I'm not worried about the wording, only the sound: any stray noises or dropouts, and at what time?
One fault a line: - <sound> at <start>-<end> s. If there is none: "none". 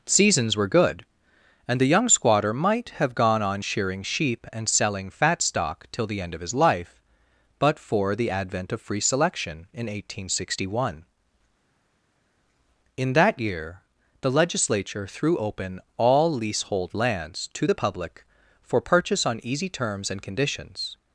none